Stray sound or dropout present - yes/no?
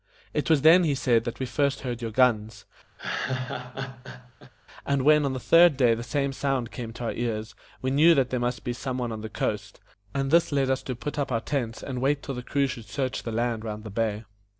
yes